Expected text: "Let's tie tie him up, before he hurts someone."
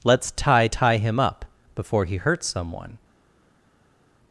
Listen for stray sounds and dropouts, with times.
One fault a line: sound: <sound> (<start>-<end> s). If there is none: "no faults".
no faults